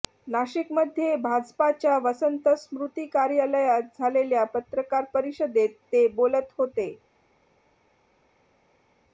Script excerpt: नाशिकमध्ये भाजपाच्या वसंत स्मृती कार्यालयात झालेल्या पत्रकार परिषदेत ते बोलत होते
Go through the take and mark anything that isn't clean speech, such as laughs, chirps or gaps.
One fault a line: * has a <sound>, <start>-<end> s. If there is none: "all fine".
all fine